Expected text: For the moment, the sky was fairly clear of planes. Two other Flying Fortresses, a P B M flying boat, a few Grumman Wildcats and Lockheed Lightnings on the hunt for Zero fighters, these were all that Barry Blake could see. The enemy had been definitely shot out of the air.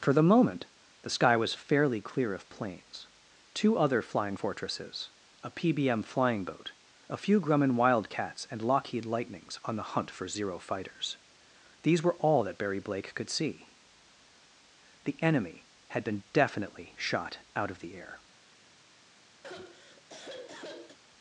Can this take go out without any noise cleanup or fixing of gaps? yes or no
no